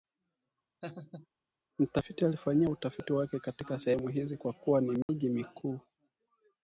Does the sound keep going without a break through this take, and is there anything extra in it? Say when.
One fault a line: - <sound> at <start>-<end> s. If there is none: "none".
- laugh at 0.8-1.3 s
- dropout at 5.0-5.1 s